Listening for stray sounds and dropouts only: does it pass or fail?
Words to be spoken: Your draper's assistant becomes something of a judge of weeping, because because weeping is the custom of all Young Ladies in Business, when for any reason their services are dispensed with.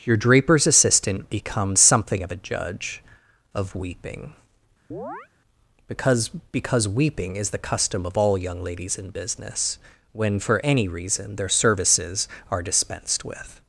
fail